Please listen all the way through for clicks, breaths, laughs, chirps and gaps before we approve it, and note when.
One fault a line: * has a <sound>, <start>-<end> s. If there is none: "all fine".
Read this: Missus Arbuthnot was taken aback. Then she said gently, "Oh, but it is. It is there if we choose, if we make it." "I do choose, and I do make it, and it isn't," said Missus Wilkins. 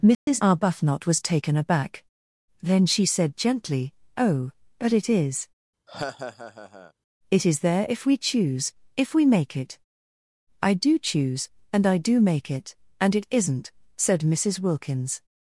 * has a dropout, 0.1-0.3 s
* has a laugh, 5.9-6.9 s